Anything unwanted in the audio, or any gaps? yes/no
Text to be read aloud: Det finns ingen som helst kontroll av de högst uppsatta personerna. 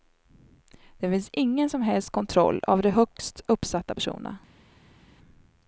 no